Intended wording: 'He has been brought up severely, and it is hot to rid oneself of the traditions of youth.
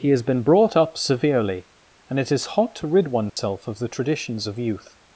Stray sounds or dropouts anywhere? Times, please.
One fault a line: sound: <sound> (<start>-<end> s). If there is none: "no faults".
sound: dropout (3.3-3.4 s)